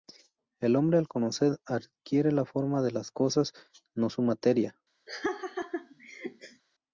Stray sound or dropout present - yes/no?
yes